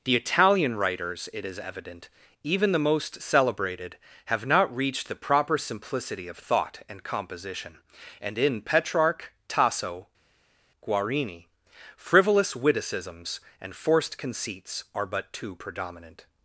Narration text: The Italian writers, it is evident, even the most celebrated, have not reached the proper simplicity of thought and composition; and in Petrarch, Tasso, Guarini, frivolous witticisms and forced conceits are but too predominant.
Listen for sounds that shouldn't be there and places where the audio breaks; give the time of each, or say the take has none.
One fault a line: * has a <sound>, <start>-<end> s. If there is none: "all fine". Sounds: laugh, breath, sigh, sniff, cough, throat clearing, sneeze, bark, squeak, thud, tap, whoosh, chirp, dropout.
all fine